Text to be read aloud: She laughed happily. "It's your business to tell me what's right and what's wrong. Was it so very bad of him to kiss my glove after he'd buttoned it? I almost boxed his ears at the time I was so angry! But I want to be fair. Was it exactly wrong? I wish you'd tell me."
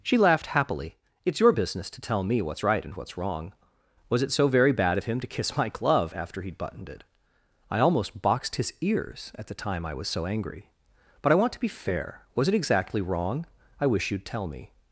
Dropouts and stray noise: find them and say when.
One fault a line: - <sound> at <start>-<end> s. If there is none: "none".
none